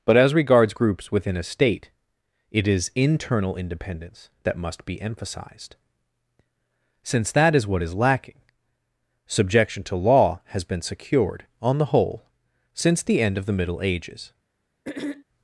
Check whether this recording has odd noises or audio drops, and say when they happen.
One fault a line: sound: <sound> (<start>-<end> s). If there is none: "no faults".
sound: throat clearing (14.8-15.2 s)